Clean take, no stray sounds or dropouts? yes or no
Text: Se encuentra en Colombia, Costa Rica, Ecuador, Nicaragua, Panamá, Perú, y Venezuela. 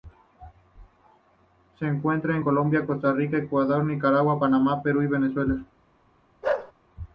no